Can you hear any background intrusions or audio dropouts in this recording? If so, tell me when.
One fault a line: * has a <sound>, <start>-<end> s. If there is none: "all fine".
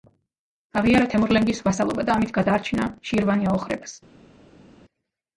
all fine